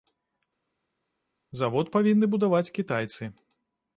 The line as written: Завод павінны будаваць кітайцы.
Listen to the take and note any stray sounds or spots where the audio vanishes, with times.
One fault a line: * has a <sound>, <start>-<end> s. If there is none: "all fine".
all fine